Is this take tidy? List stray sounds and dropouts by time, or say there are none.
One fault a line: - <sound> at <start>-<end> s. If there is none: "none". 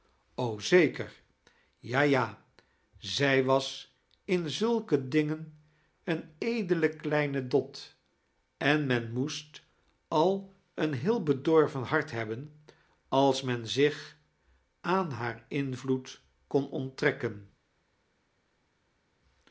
none